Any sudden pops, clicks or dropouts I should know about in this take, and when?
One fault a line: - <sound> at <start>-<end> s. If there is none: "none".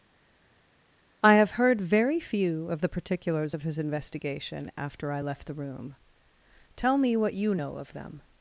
none